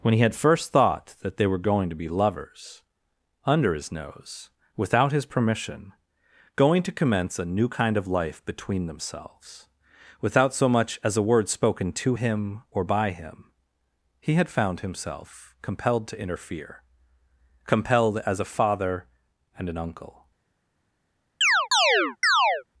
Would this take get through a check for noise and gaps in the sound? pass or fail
fail